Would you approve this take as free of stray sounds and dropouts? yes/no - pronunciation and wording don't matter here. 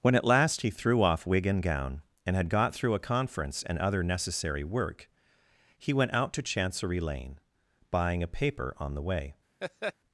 no